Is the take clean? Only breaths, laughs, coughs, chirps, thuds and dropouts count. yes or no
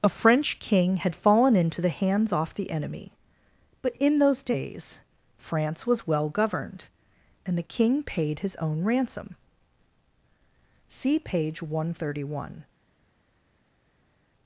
yes